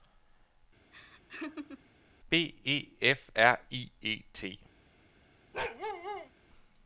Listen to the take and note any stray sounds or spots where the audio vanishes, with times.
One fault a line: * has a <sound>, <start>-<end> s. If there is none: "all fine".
* has a laugh, 0.9-1.9 s
* has a bark, 5.5-6.3 s